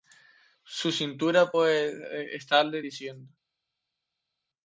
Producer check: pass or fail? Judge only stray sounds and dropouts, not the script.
pass